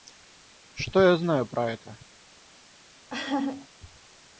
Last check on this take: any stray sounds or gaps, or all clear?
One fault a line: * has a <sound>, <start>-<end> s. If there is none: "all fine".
* has a laugh, 3.1-3.7 s